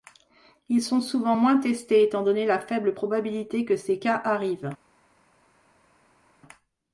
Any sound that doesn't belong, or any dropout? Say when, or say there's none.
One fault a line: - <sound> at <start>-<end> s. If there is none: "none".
none